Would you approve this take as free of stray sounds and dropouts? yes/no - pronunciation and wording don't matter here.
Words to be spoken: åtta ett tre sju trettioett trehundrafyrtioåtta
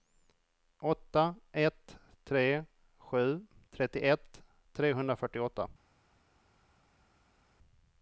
yes